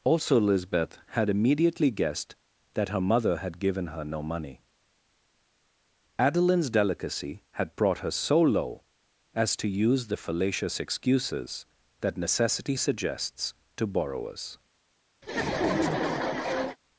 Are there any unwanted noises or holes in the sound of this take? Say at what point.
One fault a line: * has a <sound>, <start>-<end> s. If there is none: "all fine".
* has a laugh, 15.2-16.8 s